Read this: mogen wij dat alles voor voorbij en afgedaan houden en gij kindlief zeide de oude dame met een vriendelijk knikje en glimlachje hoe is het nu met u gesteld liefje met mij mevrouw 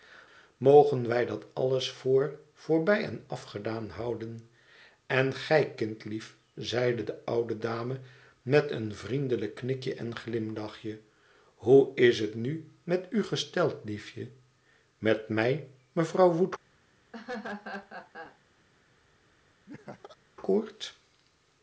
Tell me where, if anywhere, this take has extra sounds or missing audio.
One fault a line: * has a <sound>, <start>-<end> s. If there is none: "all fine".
* has a laugh, 17.1-18.4 s
* has a laugh, 19.7-20.2 s